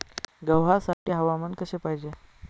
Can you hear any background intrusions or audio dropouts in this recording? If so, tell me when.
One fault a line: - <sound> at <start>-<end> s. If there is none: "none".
- dropout at 0.9-1.1 s